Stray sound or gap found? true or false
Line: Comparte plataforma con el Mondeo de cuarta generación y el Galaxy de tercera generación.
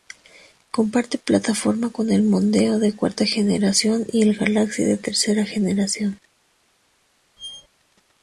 true